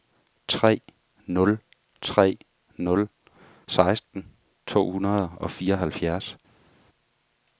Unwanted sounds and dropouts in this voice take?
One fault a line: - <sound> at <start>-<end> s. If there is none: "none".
none